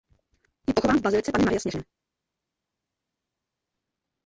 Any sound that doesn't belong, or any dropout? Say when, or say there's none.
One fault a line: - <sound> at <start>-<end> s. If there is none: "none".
none